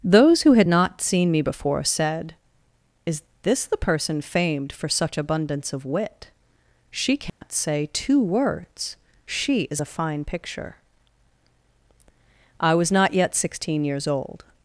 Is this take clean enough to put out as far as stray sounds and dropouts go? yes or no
no